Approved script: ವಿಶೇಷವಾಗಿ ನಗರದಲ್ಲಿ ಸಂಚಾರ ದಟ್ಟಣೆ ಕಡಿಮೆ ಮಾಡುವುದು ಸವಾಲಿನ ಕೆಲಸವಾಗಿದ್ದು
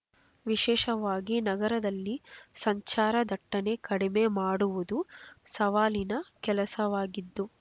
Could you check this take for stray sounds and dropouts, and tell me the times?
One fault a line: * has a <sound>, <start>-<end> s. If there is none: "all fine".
all fine